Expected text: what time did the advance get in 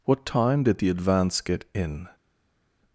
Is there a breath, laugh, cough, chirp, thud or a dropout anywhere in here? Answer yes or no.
no